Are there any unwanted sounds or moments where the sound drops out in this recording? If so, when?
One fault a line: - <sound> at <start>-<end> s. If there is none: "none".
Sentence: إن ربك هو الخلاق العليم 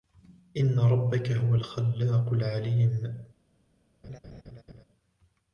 - laugh at 4.0-4.8 s